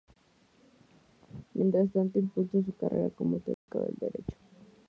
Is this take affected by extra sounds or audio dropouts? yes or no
yes